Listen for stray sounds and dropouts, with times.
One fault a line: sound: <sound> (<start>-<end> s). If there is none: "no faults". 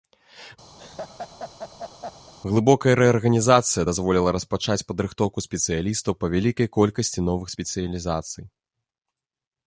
sound: laugh (0.8-2.3 s)